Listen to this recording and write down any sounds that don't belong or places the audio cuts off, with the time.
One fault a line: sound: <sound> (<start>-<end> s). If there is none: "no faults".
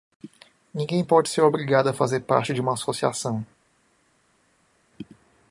no faults